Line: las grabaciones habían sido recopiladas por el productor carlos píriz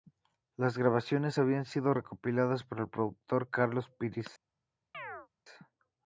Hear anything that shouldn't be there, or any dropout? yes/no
yes